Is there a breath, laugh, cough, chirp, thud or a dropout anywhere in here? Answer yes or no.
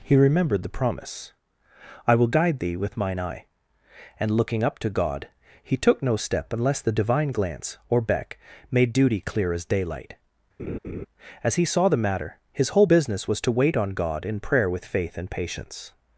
yes